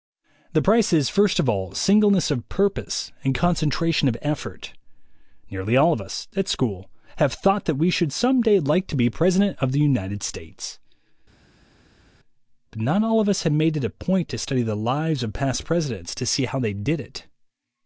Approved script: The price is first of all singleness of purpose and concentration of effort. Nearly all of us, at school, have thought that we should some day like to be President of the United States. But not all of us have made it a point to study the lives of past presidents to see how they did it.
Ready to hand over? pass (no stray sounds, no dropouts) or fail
pass